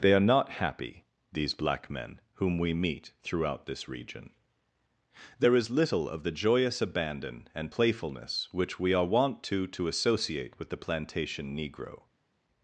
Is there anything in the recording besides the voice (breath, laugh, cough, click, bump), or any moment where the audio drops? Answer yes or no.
no